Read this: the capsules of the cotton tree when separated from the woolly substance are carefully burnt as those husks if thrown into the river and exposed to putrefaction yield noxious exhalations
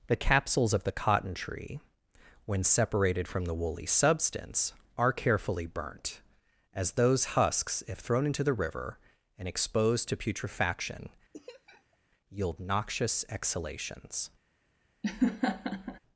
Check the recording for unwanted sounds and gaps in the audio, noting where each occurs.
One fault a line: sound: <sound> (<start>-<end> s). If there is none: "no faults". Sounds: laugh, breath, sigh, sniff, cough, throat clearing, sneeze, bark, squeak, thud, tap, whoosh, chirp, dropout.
sound: laugh (11.3-12.0 s)
sound: laugh (15.0-16.0 s)